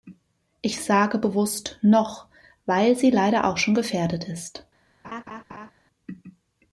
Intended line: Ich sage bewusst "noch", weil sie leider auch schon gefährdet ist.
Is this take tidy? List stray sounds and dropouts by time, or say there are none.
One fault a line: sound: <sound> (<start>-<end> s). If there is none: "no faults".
sound: laugh (5.0-5.7 s)